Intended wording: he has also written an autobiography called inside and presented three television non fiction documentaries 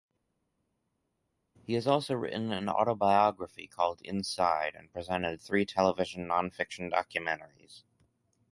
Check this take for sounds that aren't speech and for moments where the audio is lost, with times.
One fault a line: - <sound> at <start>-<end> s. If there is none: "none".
none